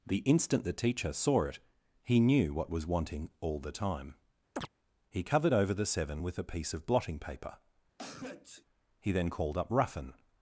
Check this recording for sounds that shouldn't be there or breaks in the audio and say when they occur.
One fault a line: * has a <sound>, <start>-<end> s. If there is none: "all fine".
* has a chirp, 4.6-4.7 s
* has a sneeze, 8.0-8.7 s